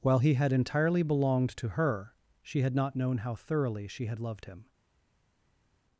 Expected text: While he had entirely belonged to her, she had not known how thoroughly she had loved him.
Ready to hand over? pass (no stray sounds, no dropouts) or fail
pass